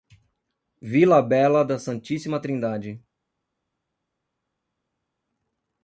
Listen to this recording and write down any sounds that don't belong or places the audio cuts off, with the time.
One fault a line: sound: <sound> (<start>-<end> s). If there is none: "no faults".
no faults